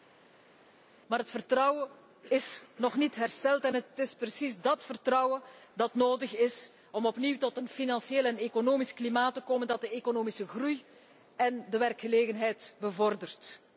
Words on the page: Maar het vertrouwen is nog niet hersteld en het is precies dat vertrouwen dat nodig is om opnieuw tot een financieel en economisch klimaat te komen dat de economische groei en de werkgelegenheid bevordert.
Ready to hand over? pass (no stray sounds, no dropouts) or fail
pass